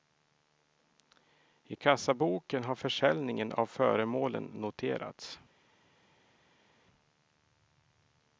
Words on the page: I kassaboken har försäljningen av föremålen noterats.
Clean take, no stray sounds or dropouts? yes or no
yes